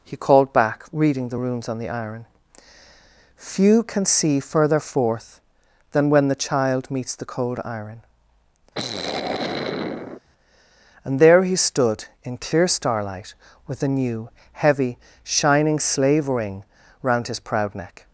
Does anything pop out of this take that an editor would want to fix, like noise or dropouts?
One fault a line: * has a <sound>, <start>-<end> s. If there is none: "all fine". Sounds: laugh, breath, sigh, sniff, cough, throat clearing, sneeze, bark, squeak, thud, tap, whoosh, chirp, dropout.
* has a sigh, 8.7-10.2 s